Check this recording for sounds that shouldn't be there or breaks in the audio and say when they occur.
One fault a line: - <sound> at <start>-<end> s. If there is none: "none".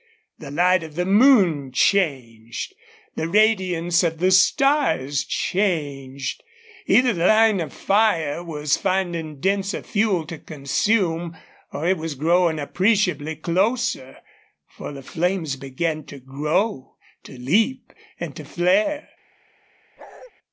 - bark at 20.0-20.3 s